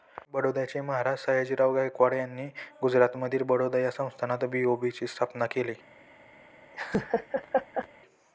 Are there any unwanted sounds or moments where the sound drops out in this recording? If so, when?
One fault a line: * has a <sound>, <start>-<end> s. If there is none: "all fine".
* has a laugh, 6.7-7.9 s